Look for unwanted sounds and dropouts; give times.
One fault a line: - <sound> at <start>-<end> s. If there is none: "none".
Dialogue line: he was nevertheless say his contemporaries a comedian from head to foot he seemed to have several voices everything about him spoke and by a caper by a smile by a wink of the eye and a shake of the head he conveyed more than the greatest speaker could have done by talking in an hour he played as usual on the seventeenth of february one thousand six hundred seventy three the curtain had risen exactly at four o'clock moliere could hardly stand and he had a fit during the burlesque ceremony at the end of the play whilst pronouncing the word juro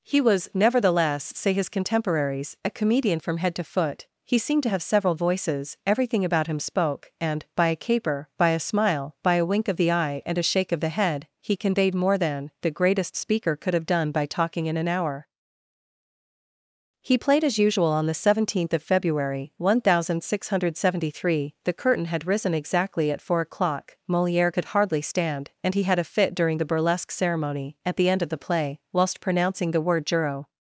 none